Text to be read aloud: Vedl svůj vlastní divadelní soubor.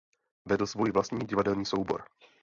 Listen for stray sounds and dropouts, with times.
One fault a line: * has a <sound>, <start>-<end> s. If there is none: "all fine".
all fine